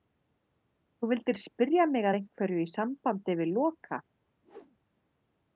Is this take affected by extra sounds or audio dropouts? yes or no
yes